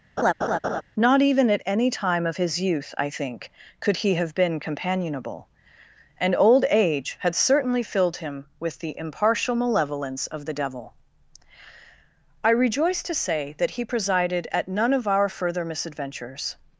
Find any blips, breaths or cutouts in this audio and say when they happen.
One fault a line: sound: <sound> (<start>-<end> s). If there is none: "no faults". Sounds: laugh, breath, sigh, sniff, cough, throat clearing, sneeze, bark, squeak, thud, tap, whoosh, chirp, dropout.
sound: laugh (0.2-0.8 s)